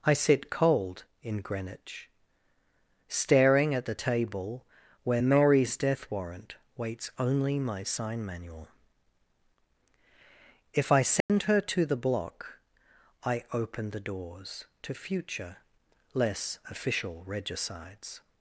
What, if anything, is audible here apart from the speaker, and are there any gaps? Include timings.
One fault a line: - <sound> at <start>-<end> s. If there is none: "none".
- dropout at 11.2-11.3 s